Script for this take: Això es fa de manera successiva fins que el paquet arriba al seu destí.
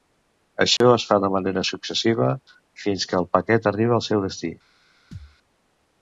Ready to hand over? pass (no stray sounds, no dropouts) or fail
fail